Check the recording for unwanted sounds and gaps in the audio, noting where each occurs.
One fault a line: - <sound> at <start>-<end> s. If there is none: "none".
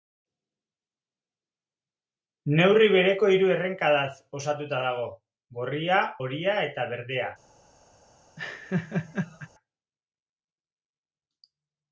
- laugh at 8.4-9.5 s